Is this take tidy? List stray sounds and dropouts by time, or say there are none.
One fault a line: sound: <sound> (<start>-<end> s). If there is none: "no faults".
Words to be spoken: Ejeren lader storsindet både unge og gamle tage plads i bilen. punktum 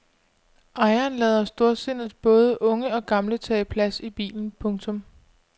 no faults